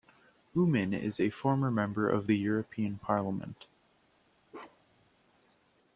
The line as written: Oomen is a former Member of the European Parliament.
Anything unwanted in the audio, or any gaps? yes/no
yes